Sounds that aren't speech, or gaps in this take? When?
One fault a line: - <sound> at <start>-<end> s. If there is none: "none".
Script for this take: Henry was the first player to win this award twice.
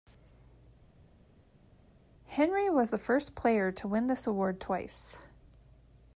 none